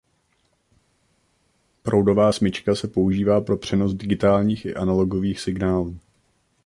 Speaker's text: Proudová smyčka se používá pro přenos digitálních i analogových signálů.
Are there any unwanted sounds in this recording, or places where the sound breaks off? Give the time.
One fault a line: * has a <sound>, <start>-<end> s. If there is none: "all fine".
all fine